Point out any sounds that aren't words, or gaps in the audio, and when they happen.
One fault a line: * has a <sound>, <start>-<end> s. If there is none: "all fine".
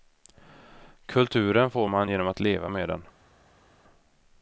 all fine